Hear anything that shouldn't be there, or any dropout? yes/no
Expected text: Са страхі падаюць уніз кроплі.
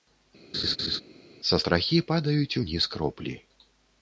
yes